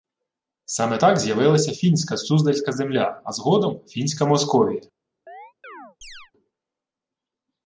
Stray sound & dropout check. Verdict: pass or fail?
fail